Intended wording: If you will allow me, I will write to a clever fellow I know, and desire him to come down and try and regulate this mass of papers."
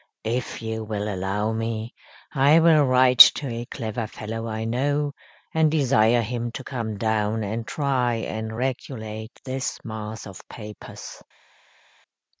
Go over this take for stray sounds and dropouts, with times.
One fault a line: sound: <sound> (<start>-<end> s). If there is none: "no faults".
no faults